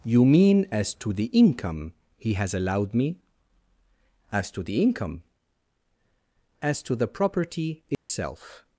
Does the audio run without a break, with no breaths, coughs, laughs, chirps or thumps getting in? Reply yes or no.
no